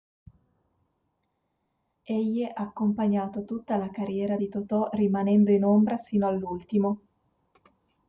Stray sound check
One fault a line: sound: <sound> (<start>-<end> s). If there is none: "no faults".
no faults